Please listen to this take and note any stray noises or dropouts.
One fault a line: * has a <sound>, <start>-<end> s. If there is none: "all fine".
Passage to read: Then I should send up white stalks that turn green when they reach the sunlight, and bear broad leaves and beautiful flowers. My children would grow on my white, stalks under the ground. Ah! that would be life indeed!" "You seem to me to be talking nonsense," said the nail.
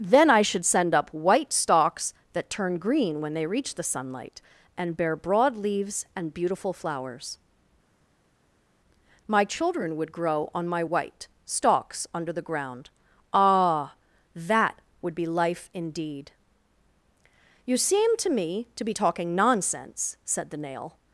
all fine